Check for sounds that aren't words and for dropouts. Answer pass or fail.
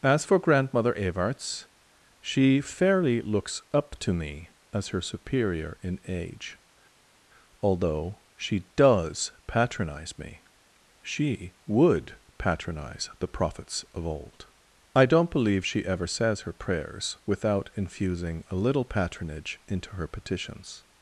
pass